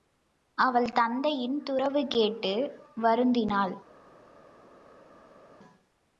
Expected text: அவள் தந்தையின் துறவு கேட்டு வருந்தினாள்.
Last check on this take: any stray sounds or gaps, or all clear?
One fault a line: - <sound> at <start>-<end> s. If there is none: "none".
none